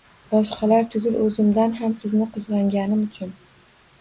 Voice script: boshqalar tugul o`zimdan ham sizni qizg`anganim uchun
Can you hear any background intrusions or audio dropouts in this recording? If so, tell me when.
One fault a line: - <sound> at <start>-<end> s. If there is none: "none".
none